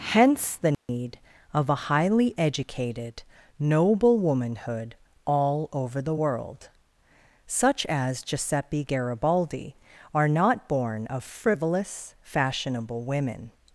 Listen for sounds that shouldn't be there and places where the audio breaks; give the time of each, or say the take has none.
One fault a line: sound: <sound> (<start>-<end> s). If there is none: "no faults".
sound: dropout (0.7-0.9 s)